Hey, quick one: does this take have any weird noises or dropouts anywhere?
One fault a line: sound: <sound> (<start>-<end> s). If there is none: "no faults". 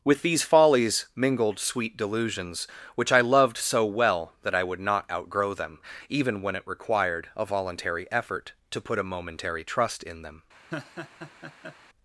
sound: laugh (10.7-11.8 s)